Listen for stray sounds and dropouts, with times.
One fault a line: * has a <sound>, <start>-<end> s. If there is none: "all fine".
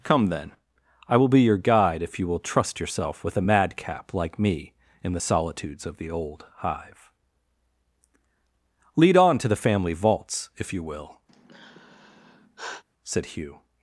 * has a sigh, 11.3-12.8 s